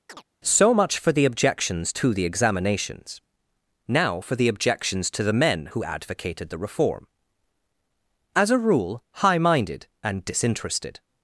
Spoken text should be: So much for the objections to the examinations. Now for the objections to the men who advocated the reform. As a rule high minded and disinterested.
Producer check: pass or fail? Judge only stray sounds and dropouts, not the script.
fail